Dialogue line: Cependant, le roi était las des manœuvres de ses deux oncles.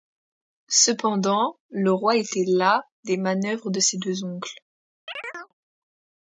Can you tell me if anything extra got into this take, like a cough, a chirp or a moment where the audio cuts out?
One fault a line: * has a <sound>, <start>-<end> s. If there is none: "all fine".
* has a chirp, 5.1-5.5 s